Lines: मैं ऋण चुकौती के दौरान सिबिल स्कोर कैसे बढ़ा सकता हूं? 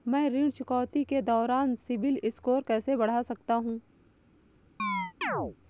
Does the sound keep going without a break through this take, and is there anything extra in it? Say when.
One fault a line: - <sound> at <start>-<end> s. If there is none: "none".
- chirp at 4.8-5.6 s